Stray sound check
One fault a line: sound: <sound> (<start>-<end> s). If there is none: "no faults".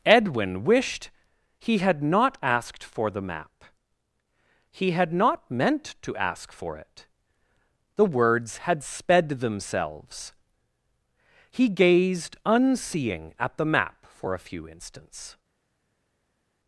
no faults